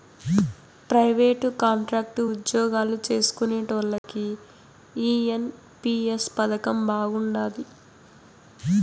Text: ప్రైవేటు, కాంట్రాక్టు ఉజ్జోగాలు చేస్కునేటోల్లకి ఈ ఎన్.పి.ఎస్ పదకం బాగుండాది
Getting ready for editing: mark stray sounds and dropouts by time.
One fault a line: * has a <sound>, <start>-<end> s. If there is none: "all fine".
* has a dropout, 4.0-4.0 s